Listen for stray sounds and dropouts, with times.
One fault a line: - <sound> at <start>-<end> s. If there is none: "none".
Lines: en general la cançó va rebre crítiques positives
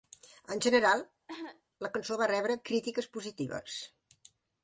- cough at 1.3-1.6 s